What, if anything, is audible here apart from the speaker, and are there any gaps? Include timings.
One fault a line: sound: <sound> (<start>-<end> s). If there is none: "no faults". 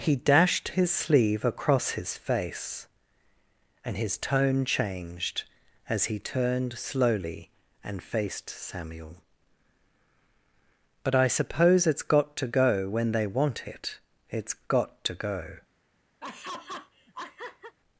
sound: laugh (16.2-17.8 s)